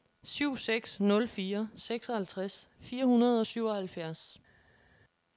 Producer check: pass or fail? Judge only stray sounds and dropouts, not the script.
pass